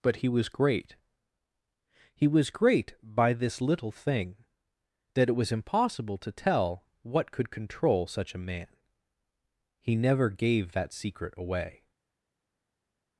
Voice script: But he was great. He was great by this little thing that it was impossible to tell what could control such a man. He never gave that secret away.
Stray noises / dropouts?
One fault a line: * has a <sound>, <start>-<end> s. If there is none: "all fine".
all fine